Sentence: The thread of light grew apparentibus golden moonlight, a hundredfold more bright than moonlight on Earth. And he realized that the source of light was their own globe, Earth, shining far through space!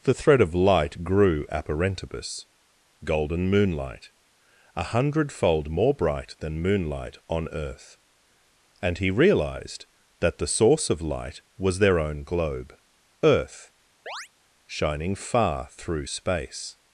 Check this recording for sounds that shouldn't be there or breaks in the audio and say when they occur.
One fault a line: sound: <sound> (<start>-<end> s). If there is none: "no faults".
sound: chirp (14.1-14.3 s)